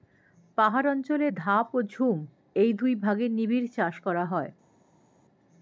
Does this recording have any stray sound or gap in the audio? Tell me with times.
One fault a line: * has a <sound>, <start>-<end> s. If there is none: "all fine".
all fine